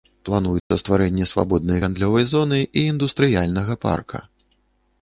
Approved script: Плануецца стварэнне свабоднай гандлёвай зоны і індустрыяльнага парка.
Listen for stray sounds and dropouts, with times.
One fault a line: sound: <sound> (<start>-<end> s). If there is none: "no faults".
sound: dropout (0.6-0.7 s)